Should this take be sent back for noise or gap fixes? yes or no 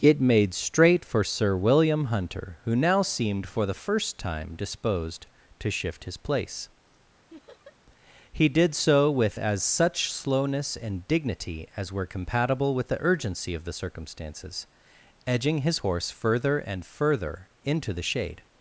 yes